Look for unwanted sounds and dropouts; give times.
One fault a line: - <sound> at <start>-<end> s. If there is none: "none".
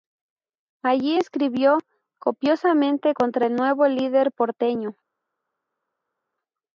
none